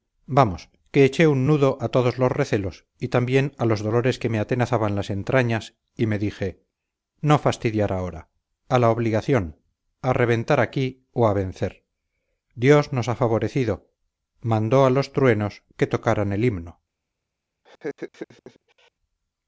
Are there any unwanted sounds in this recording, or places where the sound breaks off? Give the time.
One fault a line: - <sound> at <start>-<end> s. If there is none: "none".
- laugh at 17.6-18.9 s